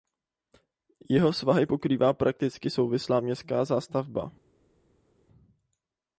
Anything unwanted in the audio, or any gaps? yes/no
no